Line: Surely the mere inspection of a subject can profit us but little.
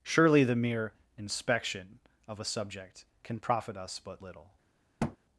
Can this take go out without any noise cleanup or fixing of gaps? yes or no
no